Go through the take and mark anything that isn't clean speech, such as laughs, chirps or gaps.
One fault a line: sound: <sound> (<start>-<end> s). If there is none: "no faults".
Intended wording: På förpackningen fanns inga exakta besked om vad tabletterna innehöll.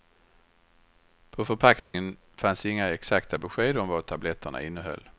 sound: dropout (1.8-1.9 s)